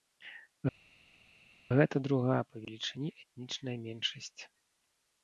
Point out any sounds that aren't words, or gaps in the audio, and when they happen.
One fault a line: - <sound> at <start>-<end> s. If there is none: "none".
none